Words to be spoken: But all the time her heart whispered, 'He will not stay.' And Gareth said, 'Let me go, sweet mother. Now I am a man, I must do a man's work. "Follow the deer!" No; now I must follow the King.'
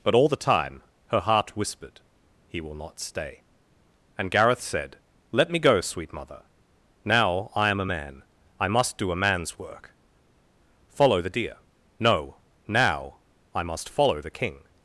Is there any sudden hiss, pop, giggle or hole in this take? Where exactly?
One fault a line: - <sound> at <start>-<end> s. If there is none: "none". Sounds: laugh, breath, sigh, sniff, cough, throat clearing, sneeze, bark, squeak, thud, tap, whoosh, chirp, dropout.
none